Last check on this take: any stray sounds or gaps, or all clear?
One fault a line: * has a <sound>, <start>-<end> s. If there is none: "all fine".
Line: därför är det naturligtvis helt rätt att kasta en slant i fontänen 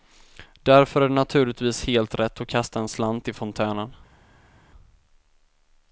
all fine